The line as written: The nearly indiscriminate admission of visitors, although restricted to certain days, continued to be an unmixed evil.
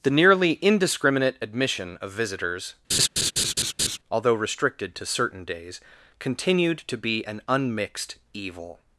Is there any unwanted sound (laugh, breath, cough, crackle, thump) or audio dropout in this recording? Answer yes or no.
yes